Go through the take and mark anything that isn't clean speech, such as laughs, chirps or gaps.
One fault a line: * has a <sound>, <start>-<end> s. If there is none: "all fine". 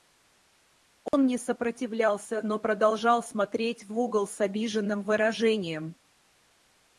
* has a dropout, 1.1-1.1 s